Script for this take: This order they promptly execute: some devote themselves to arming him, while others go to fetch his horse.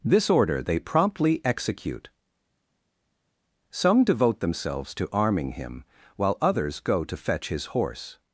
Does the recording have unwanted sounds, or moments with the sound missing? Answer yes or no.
no